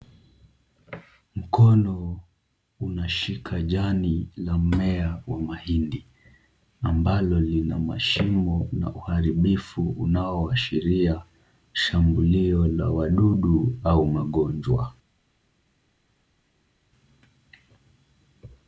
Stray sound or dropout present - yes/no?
no